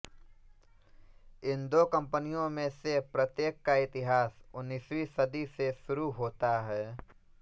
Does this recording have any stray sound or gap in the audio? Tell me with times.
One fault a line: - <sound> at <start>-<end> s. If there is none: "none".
none